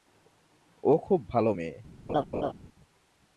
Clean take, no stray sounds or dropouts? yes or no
no